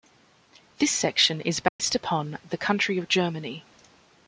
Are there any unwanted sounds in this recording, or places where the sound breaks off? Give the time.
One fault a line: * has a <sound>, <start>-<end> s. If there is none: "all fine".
* has a dropout, 1.7-1.8 s